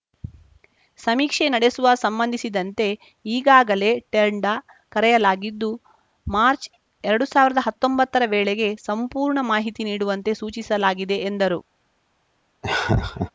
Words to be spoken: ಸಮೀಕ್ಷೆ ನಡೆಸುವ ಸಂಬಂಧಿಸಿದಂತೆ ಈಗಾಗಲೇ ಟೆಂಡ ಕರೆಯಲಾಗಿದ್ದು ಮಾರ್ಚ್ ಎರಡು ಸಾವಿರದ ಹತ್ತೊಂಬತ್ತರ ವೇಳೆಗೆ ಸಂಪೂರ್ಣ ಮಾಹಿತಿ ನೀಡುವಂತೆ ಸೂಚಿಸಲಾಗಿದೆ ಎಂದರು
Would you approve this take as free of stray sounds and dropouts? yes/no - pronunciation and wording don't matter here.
no